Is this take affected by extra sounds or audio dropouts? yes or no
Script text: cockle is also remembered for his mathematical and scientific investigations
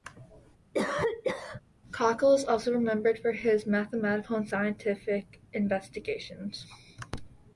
yes